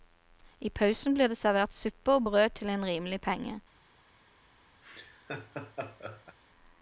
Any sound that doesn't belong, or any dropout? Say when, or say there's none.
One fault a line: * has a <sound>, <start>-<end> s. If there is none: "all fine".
* has a laugh, 4.8-6.4 s